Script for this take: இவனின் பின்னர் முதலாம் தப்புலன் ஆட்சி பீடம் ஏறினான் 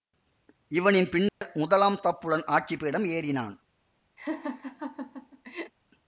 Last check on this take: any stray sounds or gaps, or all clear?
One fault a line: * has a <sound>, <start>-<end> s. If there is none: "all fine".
* has a dropout, 1.3-1.4 s
* has a laugh, 4.2-5.7 s